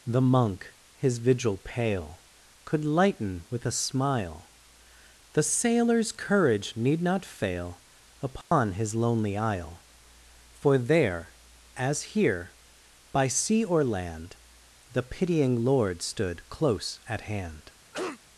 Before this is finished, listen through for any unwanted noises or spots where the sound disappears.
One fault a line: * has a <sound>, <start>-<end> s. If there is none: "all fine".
* has a dropout, 8.4-8.5 s
* has a cough, 17.9-18.2 s